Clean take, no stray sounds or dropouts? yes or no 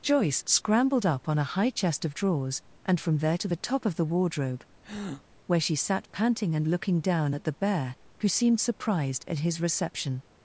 no